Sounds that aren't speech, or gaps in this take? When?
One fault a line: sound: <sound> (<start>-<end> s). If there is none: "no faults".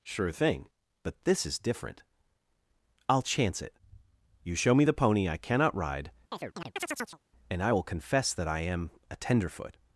sound: chirp (6.3-7.2 s)